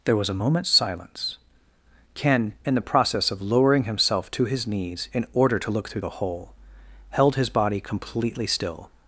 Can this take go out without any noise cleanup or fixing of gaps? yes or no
yes